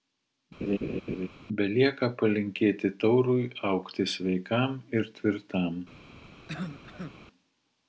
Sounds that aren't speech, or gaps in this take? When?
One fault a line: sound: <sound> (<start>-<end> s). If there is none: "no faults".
sound: laugh (0.6-1.3 s)
sound: cough (6.5-7.1 s)